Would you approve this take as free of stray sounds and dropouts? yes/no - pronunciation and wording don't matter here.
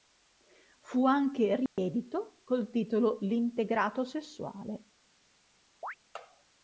no